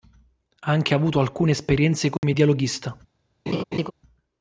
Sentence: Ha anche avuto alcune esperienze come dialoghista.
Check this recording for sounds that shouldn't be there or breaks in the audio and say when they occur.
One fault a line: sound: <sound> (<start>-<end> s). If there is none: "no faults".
sound: dropout (2.2-2.2 s)
sound: laugh (3.5-3.9 s)